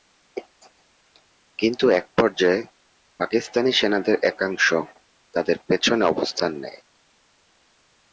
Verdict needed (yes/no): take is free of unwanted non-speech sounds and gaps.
yes